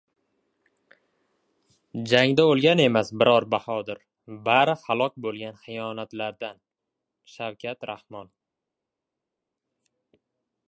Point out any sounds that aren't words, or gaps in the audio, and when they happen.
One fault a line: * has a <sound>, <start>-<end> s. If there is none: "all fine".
all fine